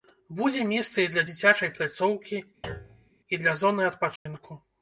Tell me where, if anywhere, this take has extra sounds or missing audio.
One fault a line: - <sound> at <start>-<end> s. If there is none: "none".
- thud at 2.6-3.1 s
- dropout at 4.2-4.3 s